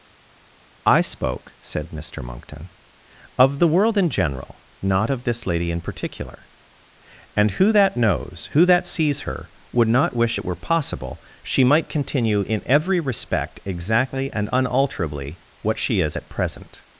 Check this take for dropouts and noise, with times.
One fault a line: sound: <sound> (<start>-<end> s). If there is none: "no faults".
no faults